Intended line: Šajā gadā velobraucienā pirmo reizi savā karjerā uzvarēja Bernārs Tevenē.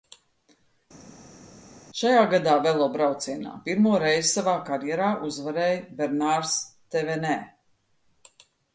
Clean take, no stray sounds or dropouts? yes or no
yes